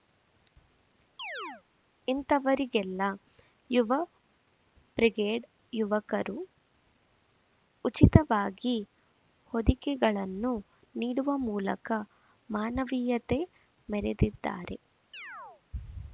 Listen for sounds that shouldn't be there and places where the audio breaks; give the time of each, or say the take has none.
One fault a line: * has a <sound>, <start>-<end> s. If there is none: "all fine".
* has a chirp, 1.2-1.6 s
* has a chirp, 15.1-15.6 s